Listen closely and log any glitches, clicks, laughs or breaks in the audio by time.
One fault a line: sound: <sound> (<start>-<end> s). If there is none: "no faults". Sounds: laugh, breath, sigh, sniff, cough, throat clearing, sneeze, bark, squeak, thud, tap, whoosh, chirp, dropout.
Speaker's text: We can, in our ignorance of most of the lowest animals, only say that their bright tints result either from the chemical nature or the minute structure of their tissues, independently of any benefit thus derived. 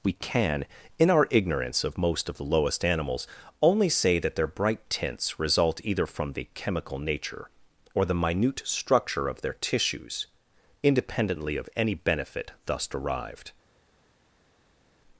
no faults